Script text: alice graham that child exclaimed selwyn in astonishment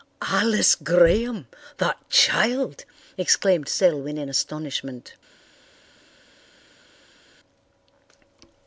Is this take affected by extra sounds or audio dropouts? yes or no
no